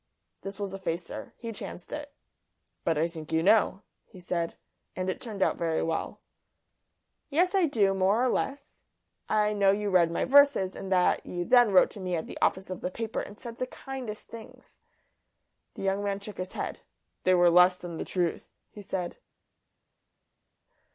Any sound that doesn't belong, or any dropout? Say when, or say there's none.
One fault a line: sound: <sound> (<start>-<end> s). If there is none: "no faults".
no faults